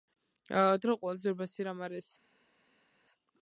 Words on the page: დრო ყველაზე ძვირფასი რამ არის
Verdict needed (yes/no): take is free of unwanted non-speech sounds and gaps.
yes